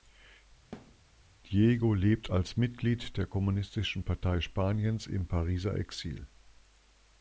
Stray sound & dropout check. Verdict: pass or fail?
fail